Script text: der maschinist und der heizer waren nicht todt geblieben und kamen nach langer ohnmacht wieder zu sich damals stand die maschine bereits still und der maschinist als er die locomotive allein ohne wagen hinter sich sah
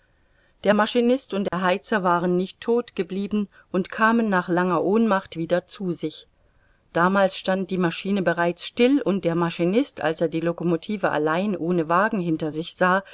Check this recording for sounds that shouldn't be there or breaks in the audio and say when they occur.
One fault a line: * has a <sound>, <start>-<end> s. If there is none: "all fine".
* has a dropout, 1.5-1.5 s